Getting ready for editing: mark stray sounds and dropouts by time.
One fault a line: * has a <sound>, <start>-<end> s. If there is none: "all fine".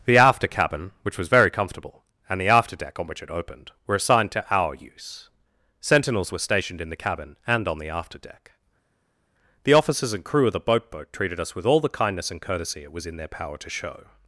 all fine